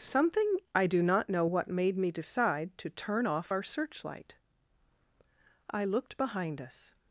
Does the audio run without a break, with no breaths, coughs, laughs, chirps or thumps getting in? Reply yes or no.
yes